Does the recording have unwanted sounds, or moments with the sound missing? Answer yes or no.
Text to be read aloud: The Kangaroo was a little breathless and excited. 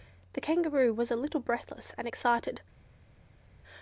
no